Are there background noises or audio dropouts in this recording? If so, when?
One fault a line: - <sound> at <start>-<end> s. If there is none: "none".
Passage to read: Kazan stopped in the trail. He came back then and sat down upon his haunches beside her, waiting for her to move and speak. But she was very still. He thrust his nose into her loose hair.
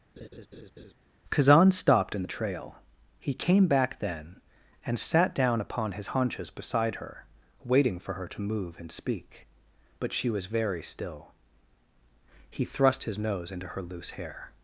- laugh at 0.2-0.9 s